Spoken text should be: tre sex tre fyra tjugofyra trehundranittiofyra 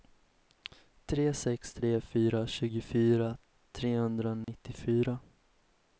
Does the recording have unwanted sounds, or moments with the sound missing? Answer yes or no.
yes